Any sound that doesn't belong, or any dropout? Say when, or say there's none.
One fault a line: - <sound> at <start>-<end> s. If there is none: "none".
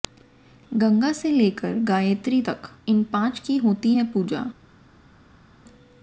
none